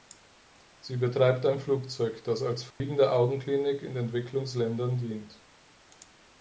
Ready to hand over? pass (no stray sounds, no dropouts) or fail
fail